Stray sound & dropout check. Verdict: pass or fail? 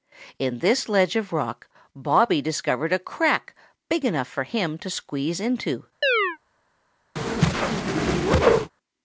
fail